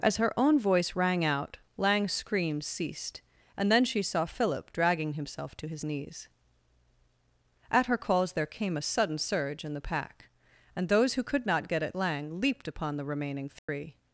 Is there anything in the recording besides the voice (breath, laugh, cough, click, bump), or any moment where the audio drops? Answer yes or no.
yes